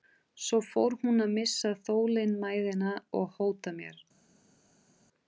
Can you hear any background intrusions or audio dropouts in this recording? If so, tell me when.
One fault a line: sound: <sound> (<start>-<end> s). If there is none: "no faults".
no faults